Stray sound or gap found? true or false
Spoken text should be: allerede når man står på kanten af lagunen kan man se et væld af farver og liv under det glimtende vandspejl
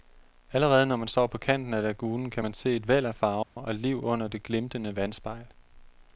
true